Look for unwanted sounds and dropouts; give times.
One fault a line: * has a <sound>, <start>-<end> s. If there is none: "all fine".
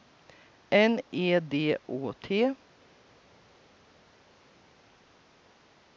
all fine